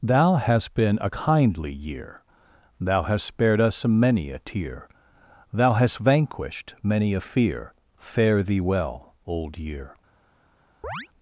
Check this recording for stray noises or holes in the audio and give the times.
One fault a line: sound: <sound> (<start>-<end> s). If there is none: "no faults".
sound: chirp (10.8-11.1 s)